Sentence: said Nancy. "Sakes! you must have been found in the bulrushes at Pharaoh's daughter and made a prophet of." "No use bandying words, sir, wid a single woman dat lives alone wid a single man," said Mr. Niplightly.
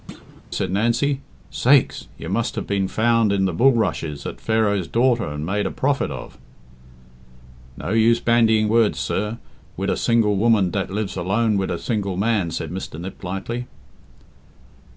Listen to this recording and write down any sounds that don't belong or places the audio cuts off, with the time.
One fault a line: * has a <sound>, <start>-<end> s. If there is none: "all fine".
* has a thud, 0.1-0.4 s